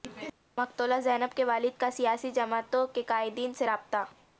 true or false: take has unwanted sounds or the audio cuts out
false